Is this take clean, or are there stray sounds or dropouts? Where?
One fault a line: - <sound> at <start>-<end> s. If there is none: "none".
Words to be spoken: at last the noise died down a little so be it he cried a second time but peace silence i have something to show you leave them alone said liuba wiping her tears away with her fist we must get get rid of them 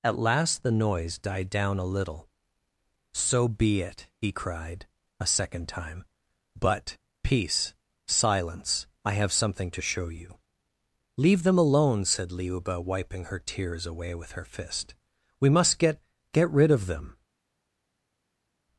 none